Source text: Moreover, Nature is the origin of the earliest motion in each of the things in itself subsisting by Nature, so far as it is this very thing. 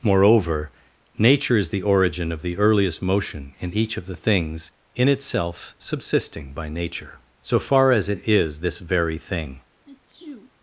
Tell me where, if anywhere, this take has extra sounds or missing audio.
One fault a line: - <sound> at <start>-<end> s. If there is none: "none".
- sneeze at 9.9-10.5 s